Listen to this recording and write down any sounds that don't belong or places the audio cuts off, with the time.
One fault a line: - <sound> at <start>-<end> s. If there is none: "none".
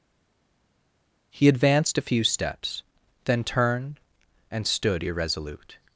none